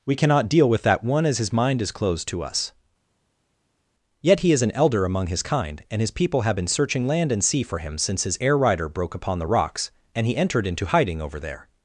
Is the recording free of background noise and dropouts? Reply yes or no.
yes